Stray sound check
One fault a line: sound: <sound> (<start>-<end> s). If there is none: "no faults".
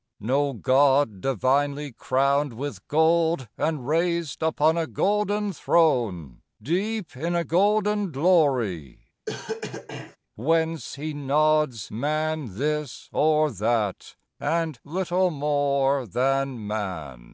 sound: cough (9.3-10.2 s)